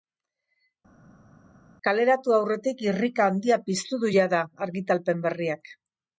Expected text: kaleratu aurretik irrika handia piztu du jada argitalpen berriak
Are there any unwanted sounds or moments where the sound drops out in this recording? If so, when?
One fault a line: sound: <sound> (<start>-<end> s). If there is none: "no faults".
no faults